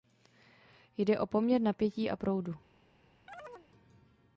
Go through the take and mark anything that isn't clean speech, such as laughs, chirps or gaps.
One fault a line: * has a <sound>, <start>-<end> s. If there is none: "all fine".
* has a chirp, 3.3-3.7 s